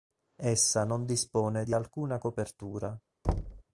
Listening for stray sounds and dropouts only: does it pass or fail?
fail